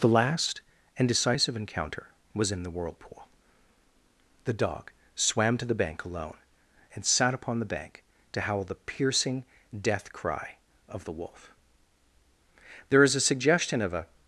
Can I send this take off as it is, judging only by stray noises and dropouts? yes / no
yes